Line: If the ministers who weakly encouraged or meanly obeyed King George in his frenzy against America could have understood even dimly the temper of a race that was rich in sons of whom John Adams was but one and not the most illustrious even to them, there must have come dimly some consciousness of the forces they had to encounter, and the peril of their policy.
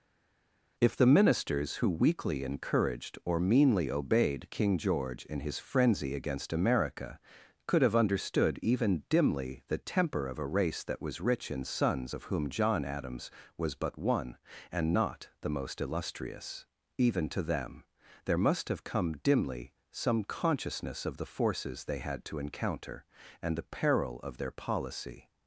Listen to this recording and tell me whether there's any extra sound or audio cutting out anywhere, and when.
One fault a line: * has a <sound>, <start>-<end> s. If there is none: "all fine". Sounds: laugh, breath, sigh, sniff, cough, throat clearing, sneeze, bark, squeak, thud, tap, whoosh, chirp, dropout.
all fine